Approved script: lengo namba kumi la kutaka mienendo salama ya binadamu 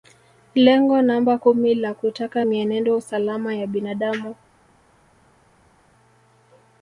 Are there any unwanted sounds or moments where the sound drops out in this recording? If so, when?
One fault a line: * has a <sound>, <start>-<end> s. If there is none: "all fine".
all fine